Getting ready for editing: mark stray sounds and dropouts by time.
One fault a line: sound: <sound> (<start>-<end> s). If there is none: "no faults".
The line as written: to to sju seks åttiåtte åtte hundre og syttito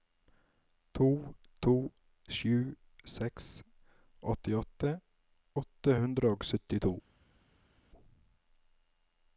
no faults